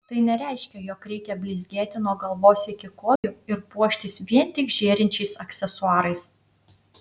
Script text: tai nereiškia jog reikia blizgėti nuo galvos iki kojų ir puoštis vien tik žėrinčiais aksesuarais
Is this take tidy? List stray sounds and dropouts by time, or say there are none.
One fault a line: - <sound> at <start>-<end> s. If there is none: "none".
- dropout at 3.2-3.2 s